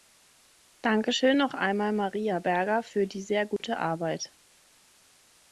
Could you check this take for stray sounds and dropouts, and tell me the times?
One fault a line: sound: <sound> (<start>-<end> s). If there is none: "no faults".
sound: dropout (3.6-3.6 s)